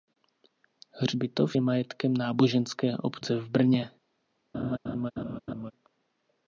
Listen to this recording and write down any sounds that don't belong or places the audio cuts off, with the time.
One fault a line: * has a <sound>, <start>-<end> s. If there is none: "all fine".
* has a laugh, 4.5-5.7 s